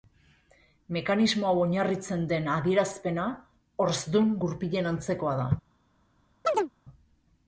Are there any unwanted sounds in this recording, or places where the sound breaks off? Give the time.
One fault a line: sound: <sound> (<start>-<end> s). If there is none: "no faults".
sound: chirp (6.4-6.7 s)